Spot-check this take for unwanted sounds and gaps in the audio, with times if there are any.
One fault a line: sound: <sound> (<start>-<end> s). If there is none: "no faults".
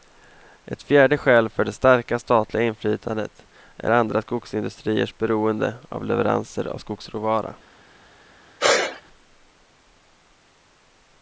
sound: sneeze (8.6-9.0 s)